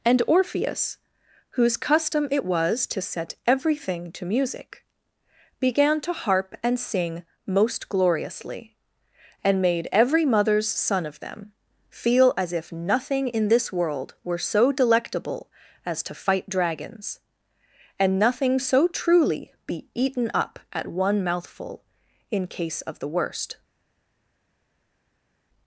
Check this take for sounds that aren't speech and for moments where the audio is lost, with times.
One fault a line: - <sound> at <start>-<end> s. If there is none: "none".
none